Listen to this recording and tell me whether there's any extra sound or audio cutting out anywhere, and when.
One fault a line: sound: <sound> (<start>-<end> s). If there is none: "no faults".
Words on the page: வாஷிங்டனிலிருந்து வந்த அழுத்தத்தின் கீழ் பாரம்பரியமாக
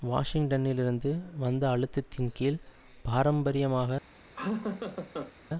sound: laugh (4.4-5.3 s)